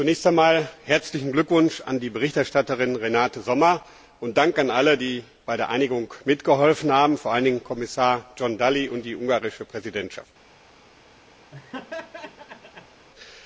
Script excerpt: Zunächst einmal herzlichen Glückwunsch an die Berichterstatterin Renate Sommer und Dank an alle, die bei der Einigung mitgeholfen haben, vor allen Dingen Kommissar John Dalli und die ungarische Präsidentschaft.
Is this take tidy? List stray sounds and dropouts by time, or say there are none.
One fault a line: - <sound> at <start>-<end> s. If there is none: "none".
- laugh at 11.5-13.1 s